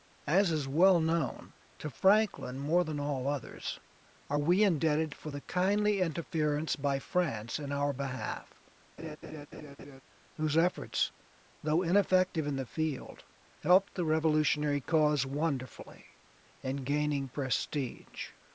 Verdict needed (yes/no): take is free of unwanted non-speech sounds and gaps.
no